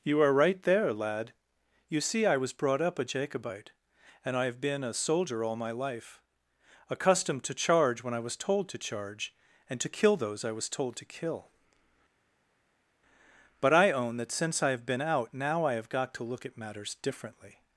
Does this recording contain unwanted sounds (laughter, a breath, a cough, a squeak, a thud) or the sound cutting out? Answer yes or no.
no